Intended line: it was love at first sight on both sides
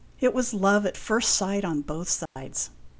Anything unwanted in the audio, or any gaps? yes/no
yes